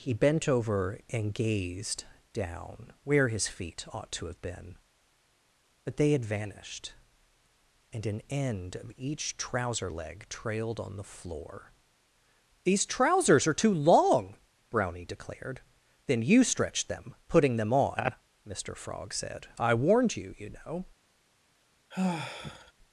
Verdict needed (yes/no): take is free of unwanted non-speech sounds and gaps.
no